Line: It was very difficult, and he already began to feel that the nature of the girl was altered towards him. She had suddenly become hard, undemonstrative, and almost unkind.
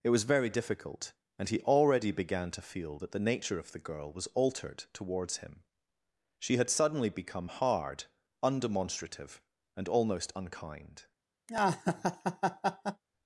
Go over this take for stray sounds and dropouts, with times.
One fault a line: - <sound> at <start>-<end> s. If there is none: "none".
- laugh at 11.5-13.0 s